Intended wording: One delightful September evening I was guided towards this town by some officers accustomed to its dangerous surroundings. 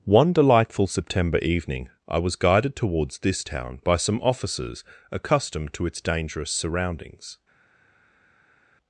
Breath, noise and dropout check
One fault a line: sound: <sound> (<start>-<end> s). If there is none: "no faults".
no faults